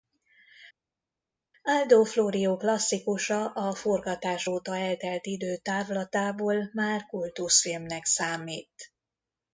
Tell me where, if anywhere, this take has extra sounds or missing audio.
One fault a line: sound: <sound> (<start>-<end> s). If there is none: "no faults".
no faults